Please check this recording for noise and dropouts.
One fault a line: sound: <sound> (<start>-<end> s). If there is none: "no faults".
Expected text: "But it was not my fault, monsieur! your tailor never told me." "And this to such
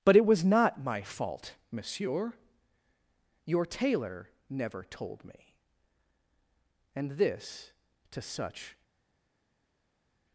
no faults